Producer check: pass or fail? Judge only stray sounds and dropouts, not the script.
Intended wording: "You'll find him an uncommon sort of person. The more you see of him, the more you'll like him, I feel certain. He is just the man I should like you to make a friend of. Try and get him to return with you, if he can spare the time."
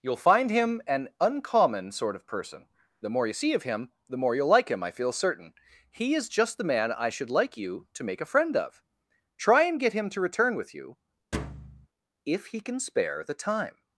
fail